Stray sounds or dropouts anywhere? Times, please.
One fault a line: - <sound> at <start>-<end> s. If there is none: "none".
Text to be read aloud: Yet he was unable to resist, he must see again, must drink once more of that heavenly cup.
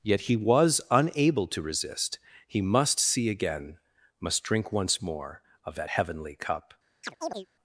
- chirp at 7.0-7.5 s